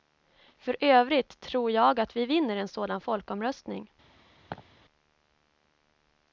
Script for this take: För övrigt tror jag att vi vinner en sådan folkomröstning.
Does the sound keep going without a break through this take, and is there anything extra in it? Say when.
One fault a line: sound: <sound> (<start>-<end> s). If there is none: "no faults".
sound: laugh (4.5-4.7 s)